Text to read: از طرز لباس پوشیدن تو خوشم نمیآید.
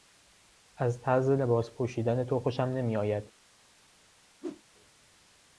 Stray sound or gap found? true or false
true